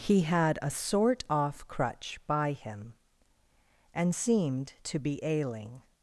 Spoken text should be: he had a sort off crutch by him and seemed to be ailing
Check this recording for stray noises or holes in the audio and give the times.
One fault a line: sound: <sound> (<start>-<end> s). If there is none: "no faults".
no faults